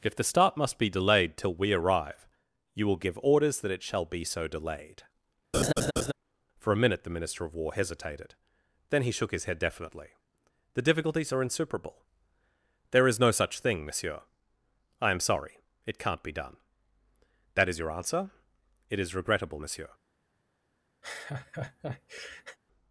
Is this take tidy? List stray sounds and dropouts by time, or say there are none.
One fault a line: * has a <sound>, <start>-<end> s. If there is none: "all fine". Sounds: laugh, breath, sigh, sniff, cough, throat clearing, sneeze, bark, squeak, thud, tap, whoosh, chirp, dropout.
* has a laugh, 5.5-6.1 s
* has a laugh, 21.0-22.6 s